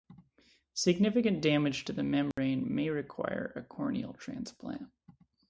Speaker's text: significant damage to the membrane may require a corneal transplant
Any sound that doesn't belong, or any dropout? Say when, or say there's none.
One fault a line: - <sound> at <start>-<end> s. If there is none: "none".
- dropout at 2.3-2.4 s